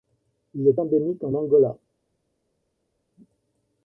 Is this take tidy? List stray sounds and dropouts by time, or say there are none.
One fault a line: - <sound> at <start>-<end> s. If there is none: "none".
none